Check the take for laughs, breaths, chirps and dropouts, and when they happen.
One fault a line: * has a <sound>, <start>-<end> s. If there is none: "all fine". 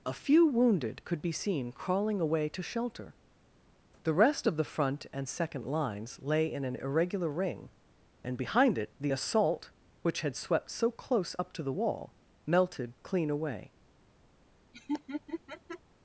* has a laugh, 14.7-15.8 s